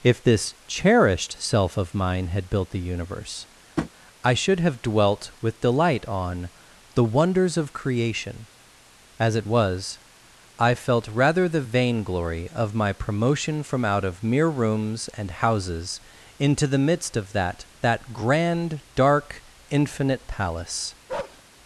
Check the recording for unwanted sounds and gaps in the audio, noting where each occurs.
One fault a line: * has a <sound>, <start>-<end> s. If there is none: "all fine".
* has a tap, 3.8-3.9 s
* has a bark, 21.1-21.4 s